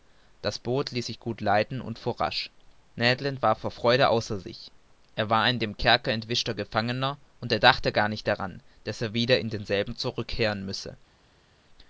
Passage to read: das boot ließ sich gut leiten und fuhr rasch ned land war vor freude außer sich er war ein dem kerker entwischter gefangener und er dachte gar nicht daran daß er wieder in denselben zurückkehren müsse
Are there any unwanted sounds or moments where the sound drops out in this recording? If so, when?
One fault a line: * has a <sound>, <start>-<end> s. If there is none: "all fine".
all fine